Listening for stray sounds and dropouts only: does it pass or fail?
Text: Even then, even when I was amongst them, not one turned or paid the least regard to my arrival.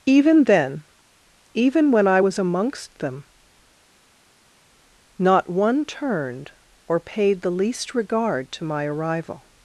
pass